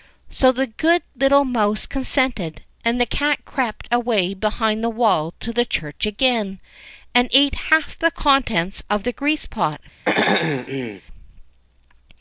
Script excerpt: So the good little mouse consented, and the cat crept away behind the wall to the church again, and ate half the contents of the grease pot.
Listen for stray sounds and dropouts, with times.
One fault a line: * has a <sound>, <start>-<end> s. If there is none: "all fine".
* has a throat clearing, 10.1-11.0 s